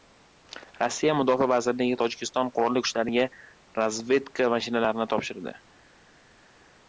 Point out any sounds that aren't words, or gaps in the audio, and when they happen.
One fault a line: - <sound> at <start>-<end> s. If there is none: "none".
none